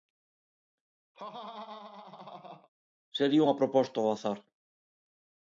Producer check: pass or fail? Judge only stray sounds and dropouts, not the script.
fail